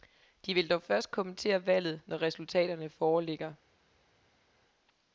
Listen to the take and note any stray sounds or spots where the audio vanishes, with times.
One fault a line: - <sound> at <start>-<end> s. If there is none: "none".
none